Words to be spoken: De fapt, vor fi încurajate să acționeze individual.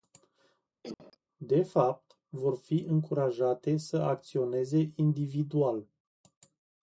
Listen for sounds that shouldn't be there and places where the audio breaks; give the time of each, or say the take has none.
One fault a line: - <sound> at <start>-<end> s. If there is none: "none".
- cough at 0.8-1.2 s